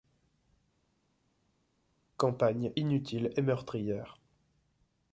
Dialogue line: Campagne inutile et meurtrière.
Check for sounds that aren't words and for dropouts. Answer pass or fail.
pass